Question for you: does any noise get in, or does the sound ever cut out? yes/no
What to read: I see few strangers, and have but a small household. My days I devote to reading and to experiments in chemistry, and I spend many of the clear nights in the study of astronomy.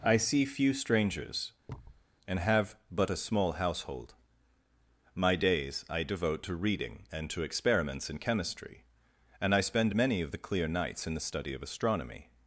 yes